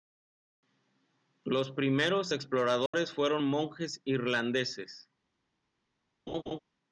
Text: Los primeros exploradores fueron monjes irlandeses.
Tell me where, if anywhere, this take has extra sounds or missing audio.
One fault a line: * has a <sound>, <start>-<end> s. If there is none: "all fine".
* has a dropout, 2.9-2.9 s
* has a laugh, 6.3-6.6 s